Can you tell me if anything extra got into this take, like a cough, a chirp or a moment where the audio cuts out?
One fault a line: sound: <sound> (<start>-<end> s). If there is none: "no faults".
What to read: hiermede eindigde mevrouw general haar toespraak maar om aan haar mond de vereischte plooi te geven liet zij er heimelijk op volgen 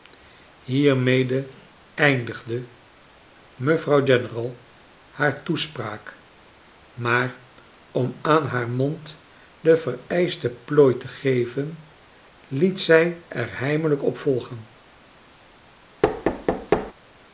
sound: thud (16.0-16.9 s)